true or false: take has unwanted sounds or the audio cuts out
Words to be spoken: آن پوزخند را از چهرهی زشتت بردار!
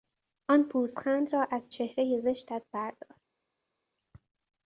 false